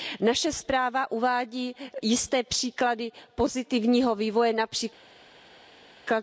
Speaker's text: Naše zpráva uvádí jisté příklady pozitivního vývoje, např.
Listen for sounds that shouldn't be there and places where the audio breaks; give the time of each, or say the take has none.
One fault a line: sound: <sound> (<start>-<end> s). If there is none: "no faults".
no faults